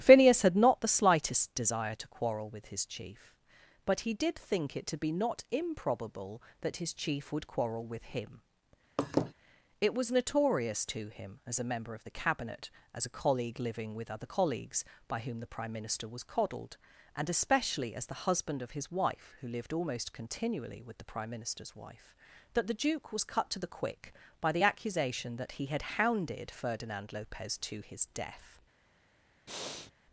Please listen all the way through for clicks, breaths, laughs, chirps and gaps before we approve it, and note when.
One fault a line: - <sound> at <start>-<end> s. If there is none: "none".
- laugh at 9.0-9.3 s
- breath at 29.5-29.9 s